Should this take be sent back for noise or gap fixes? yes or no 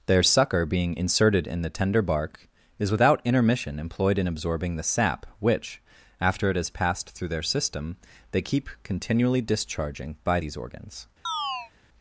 yes